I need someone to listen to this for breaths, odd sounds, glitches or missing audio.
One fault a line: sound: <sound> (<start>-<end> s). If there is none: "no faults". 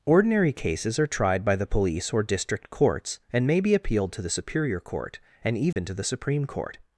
sound: dropout (5.7-5.8 s)